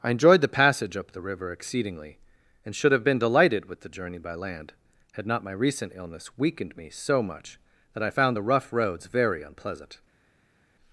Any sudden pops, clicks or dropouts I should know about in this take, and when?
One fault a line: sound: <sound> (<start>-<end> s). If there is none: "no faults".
no faults